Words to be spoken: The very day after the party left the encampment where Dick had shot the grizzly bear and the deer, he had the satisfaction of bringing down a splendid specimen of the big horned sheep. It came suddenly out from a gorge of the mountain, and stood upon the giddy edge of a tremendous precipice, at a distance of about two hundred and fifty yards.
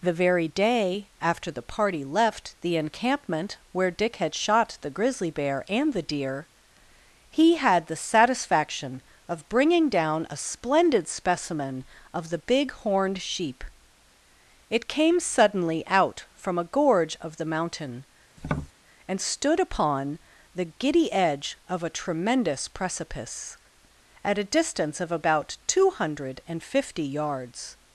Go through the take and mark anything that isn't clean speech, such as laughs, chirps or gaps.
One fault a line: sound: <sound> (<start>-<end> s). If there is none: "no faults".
sound: tap (18.4-18.7 s)